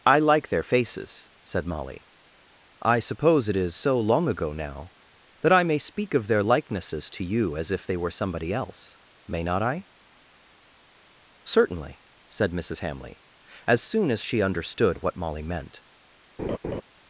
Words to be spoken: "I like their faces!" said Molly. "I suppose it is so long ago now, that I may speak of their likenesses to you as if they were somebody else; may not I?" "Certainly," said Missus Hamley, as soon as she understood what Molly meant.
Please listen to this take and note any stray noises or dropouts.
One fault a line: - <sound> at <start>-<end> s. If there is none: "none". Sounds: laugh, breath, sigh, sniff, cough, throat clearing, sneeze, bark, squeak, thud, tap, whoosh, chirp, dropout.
- laugh at 16.4-16.8 s